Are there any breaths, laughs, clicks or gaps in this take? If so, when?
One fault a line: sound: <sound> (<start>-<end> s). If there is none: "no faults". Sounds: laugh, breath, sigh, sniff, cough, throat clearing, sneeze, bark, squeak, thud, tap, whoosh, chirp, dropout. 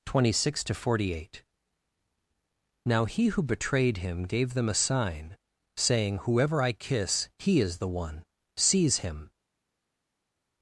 no faults